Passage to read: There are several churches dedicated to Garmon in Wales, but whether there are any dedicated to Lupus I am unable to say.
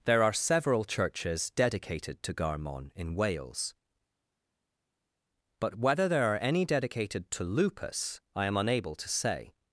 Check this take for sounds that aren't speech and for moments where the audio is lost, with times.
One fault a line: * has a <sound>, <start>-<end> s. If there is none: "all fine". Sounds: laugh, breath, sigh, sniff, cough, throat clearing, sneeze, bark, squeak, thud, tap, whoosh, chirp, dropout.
all fine